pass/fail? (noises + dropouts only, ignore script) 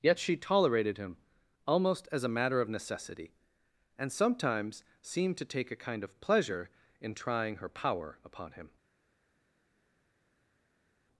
pass